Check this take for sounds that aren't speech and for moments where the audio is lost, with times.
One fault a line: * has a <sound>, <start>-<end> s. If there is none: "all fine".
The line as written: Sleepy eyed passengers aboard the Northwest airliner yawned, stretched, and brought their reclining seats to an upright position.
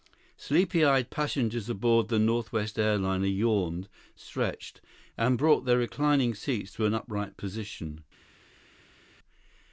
all fine